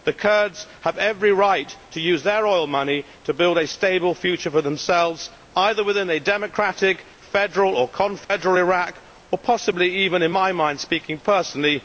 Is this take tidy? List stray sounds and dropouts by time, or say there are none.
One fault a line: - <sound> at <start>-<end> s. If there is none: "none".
- dropout at 8.2-8.3 s